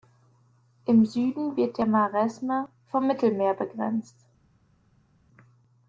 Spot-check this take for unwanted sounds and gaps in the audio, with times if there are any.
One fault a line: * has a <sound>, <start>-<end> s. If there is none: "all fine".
all fine